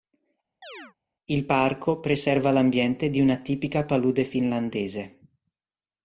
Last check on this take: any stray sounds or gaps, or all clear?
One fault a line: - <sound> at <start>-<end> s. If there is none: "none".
- chirp at 0.6-0.9 s